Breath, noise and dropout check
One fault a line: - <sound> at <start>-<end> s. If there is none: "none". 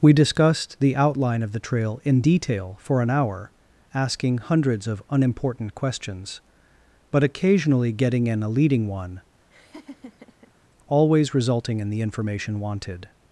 - laugh at 9.5-10.5 s